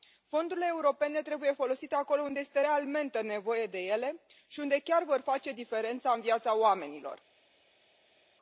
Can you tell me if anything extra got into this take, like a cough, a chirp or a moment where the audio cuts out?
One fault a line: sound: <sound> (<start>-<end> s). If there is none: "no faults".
no faults